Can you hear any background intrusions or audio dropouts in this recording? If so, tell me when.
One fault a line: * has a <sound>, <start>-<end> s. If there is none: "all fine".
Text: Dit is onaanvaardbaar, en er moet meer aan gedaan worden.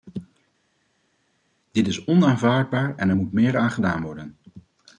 all fine